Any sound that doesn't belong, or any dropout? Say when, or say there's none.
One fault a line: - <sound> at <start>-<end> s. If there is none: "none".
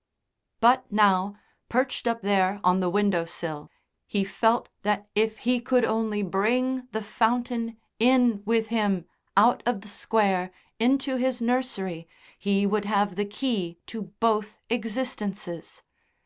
none